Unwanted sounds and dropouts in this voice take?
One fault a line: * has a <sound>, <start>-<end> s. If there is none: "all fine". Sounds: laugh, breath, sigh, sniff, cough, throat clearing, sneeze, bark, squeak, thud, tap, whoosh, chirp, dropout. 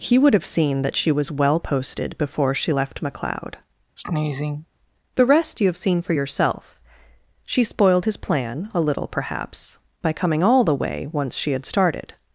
* has a sneeze, 4.0-4.7 s